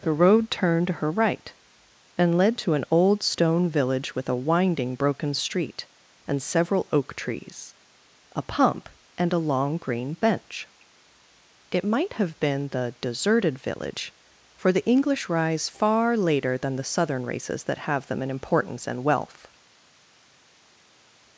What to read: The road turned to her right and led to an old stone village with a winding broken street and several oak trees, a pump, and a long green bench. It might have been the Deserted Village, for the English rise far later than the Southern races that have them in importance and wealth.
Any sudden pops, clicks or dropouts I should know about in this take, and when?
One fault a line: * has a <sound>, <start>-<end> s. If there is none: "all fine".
all fine